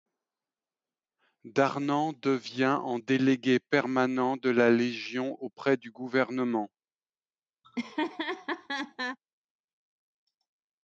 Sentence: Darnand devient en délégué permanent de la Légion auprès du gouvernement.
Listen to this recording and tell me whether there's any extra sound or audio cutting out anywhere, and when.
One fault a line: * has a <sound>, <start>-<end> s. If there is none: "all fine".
* has a laugh, 7.6-9.2 s